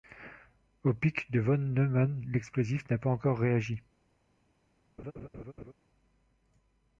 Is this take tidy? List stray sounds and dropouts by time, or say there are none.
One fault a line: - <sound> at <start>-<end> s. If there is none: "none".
- laugh at 5.0-5.7 s